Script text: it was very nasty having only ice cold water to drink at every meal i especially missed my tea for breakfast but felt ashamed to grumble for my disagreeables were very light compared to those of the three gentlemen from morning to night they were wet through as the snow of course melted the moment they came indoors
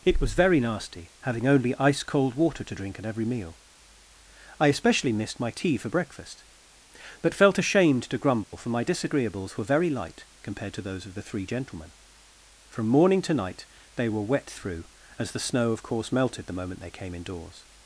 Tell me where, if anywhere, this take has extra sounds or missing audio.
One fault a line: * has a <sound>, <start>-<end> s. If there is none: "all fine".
* has a dropout, 8.4-8.5 s